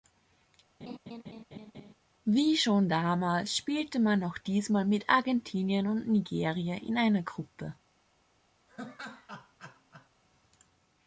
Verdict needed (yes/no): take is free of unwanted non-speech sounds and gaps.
no